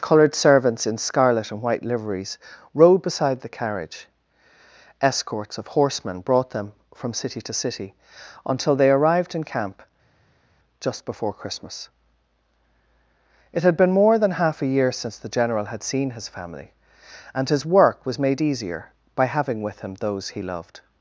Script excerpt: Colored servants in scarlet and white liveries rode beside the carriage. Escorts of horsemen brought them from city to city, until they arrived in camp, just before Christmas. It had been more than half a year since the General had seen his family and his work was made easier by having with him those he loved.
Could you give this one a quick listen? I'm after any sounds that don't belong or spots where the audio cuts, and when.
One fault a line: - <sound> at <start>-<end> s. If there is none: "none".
none